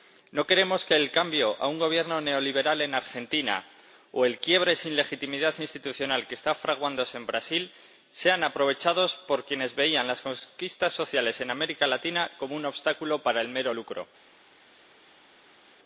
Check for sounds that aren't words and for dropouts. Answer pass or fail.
pass